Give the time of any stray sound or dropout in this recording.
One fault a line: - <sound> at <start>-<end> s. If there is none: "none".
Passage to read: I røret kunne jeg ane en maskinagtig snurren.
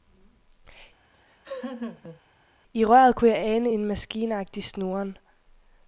- laugh at 1.1-2.2 s